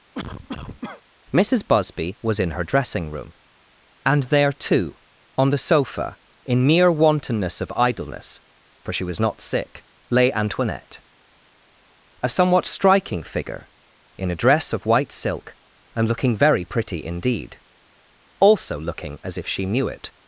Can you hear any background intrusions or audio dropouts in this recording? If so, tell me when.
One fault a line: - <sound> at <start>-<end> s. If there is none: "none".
- cough at 0.1-1.0 s